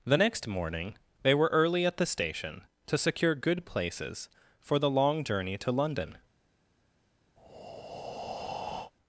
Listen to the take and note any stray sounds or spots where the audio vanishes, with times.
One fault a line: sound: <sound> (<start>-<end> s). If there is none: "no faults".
sound: breath (7.4-8.9 s)